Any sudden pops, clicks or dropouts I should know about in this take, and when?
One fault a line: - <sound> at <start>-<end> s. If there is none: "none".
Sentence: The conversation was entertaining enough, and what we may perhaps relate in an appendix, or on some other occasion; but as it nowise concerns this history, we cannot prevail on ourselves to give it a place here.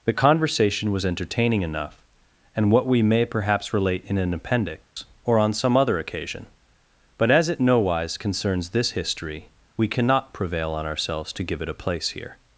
- dropout at 4.8-5.0 s